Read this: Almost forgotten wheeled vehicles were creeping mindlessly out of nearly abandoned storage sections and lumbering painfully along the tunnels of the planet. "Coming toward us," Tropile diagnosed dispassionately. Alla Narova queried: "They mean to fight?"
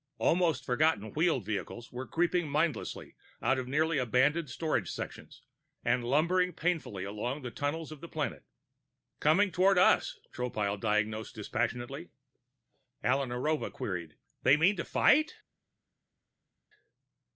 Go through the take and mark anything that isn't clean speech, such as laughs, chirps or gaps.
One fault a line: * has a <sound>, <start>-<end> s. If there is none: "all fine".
all fine